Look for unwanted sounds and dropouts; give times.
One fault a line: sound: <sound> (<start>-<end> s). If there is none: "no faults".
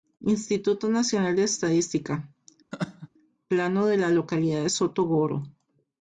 sound: laugh (2.7-3.1 s)